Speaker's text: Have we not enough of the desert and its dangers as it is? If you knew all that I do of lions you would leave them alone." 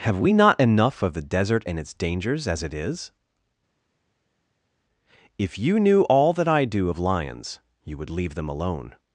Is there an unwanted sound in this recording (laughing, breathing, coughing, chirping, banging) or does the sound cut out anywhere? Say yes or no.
no